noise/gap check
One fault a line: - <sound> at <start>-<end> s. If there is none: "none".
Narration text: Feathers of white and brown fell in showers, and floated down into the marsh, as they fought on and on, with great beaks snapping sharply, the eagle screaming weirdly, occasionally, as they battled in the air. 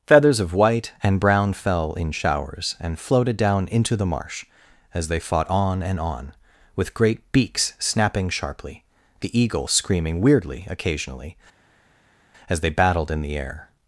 none